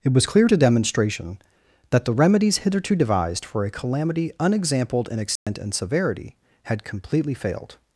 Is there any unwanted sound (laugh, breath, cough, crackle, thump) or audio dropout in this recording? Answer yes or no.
yes